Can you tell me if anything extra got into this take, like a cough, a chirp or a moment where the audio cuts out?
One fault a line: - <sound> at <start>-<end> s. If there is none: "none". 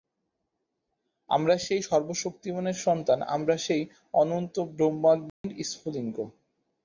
- dropout at 5.3-5.4 s